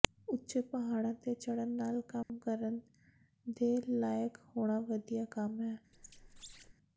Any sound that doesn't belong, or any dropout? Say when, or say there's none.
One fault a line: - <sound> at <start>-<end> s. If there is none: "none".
- dropout at 2.2-2.3 s
- squeak at 5.9-6.7 s